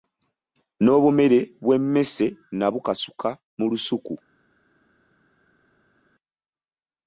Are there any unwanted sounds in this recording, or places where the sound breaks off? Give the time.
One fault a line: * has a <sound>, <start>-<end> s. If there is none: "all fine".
all fine